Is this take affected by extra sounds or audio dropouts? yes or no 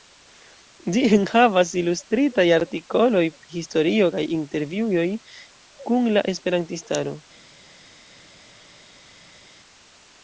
no